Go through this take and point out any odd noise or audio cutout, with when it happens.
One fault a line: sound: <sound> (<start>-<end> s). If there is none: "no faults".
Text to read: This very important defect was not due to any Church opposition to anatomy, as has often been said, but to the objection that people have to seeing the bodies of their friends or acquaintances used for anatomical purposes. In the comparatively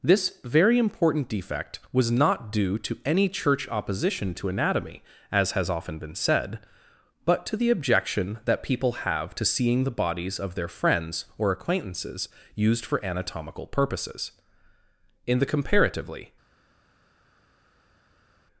no faults